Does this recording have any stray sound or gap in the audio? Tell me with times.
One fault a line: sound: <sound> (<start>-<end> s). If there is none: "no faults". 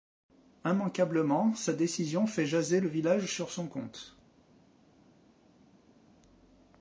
no faults